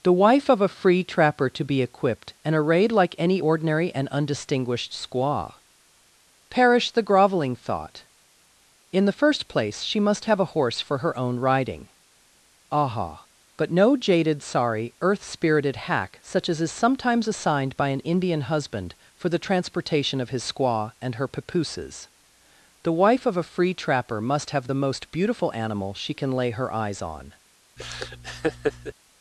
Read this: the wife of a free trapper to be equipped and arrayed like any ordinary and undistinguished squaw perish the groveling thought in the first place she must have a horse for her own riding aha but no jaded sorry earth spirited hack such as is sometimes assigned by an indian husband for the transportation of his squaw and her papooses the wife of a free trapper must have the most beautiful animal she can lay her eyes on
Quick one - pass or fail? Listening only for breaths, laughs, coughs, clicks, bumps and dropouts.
fail